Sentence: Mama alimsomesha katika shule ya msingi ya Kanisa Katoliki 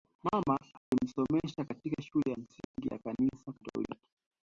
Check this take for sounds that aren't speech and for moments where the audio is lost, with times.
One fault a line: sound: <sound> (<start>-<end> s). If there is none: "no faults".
sound: dropout (0.8-0.9 s)
sound: dropout (2.6-2.7 s)